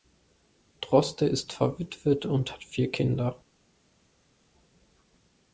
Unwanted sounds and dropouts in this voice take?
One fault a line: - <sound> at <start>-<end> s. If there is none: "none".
none